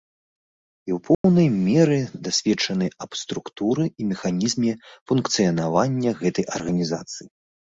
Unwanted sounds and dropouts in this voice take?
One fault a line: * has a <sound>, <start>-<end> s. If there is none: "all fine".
* has a dropout, 1.1-1.2 s